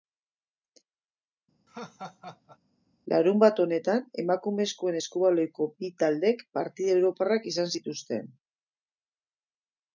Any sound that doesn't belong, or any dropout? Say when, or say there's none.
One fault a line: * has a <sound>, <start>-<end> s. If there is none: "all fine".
* has a laugh, 1.7-2.6 s